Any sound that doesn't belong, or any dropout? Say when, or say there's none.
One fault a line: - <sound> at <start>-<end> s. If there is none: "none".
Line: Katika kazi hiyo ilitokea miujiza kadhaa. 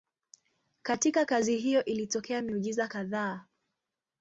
none